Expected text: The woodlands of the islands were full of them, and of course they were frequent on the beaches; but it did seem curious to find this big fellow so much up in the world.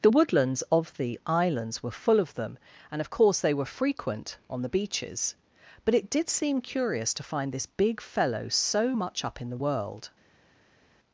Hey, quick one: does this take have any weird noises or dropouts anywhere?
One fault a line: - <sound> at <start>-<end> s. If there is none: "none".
none